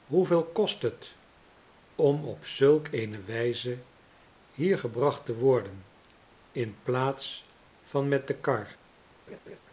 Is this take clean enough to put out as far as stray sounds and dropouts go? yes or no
no